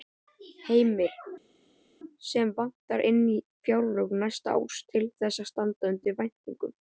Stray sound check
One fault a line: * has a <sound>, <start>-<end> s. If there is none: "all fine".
all fine